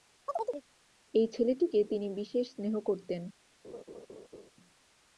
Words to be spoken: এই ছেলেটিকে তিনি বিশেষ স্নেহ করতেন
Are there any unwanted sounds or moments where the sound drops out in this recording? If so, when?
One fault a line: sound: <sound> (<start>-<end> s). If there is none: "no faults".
sound: chirp (0.3-0.6 s)
sound: laugh (3.6-4.5 s)